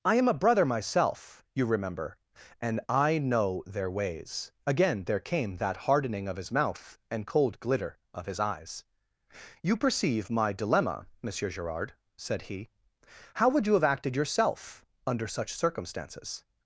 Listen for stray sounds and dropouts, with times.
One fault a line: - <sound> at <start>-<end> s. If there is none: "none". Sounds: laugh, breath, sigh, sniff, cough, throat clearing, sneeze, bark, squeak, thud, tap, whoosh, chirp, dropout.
none